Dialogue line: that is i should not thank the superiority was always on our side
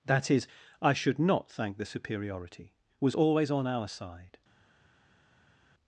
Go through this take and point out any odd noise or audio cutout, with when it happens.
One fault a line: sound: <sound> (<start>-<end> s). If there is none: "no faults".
no faults